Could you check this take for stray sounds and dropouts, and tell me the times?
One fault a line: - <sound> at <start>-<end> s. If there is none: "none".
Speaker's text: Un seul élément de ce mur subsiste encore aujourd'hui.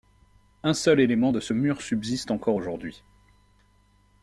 none